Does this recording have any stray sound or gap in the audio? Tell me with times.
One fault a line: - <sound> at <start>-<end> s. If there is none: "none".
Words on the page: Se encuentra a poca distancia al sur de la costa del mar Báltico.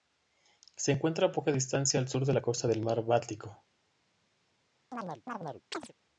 - chirp at 4.9-5.9 s